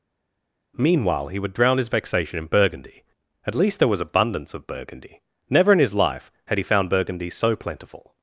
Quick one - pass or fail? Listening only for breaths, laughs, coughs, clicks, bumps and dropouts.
pass